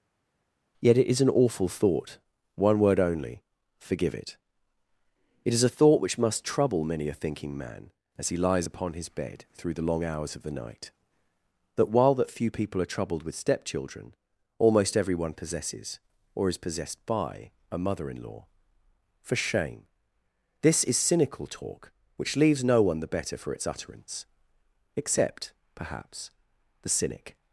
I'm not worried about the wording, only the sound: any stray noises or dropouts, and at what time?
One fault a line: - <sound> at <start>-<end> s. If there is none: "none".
none